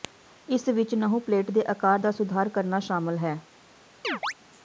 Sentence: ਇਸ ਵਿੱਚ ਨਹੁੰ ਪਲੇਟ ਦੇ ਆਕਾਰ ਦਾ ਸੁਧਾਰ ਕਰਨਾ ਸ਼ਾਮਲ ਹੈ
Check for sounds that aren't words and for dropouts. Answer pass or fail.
fail